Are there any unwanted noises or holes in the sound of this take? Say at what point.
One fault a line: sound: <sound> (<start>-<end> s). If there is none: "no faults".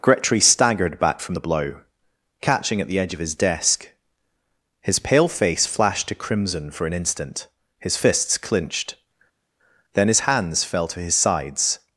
no faults